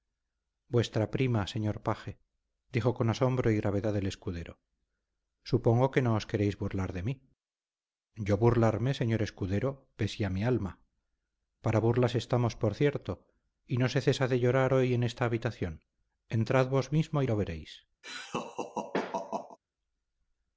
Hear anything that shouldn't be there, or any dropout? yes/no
yes